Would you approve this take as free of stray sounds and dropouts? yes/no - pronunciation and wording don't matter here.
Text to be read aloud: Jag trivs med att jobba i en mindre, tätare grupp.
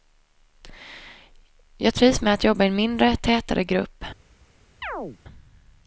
no